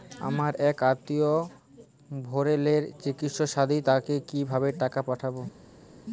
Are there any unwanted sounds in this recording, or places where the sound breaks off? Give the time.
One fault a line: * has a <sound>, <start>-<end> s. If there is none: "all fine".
all fine